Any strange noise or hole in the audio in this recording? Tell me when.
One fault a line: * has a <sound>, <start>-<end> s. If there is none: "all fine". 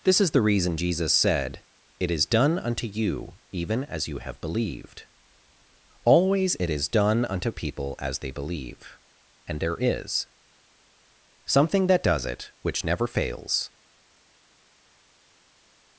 all fine